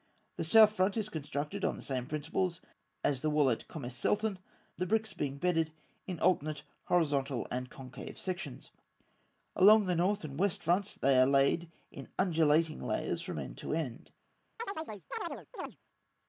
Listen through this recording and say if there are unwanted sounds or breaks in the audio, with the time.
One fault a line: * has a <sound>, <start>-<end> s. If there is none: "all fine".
* has a chirp, 14.6-15.8 s